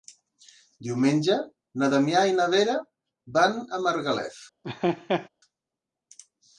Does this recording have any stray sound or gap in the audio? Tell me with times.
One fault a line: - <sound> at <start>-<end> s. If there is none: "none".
- laugh at 4.6-5.3 s